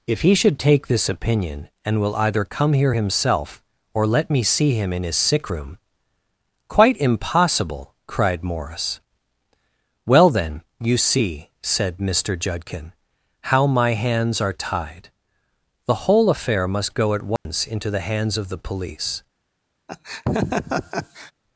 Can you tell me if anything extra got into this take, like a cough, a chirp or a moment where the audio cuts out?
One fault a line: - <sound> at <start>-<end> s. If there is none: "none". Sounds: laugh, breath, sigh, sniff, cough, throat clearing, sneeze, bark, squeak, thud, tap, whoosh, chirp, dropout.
- dropout at 17.4-17.5 s
- laugh at 19.9-21.3 s